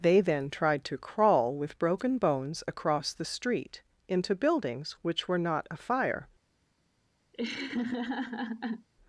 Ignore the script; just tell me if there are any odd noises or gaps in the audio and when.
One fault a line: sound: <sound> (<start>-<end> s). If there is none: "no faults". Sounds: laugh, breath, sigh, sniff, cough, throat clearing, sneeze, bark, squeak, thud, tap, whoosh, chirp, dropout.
sound: laugh (7.3-8.9 s)